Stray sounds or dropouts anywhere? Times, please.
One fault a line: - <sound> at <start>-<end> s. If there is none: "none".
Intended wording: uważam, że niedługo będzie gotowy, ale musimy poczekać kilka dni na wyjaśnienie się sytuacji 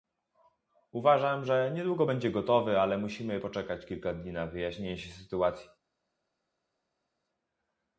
none